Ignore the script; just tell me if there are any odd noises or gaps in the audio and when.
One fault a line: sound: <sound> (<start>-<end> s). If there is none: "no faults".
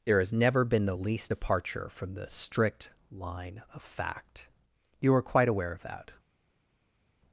no faults